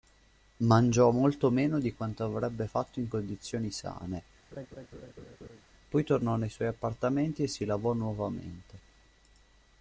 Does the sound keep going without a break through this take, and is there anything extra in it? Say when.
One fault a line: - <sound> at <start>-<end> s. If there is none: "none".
- laugh at 4.5-5.6 s